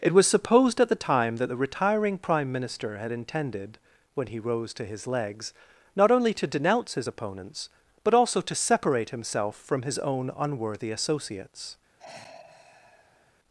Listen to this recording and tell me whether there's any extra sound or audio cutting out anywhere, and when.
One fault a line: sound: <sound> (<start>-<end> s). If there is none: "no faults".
sound: sigh (12.0-13.3 s)